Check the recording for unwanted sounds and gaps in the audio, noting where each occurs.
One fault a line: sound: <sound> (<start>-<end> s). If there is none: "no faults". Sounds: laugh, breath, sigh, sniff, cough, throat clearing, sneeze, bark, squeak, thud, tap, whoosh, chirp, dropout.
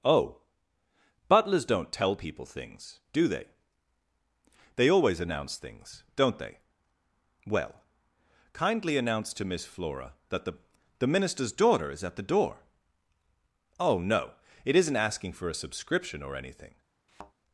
sound: thud (17.1-17.3 s)